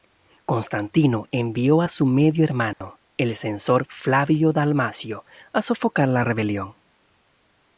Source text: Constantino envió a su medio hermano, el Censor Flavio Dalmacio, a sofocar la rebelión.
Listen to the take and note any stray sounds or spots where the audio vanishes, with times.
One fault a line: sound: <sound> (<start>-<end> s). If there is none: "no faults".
sound: dropout (2.7-2.8 s)